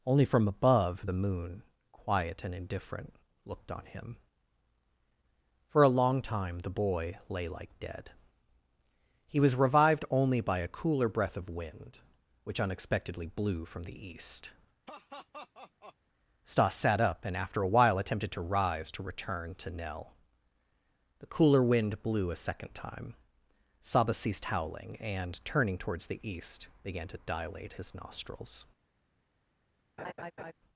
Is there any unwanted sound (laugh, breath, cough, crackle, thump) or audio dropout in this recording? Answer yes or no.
yes